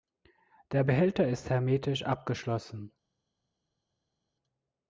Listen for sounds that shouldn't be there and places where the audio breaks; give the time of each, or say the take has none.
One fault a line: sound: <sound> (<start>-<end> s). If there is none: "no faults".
no faults